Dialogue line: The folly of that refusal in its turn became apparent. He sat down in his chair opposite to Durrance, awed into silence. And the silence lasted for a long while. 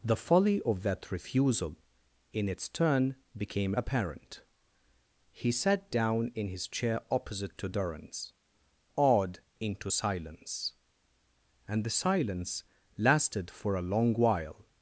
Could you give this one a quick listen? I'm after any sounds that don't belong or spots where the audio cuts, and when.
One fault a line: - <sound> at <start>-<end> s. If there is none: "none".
none